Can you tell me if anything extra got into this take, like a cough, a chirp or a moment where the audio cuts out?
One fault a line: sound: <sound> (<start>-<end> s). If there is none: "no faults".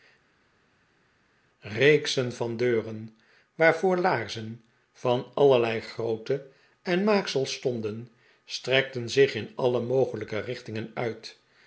no faults